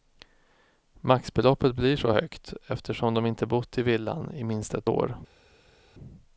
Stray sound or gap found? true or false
false